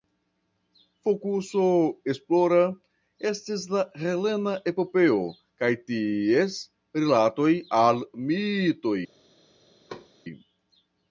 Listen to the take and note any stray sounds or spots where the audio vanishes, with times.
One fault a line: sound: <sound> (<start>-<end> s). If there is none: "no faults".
sound: thud (9.9-10.1 s)